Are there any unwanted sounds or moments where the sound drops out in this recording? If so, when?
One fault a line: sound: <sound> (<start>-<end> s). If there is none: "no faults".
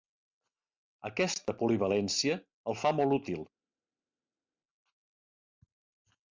no faults